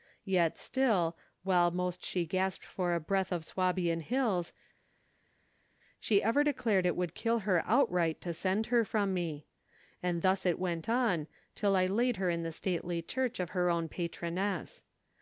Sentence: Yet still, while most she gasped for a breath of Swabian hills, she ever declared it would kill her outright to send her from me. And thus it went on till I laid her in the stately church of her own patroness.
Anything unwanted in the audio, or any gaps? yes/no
no